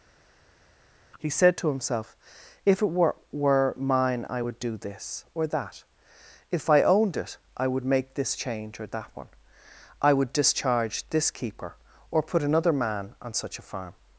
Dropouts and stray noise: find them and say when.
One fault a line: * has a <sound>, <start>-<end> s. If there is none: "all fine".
all fine